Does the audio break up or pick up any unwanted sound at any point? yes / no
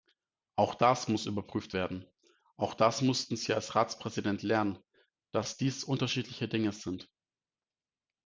no